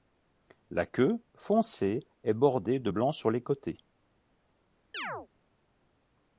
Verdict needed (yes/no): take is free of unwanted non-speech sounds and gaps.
no